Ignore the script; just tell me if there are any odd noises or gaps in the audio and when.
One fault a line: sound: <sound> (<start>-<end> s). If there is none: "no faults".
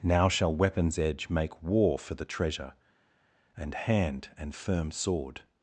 no faults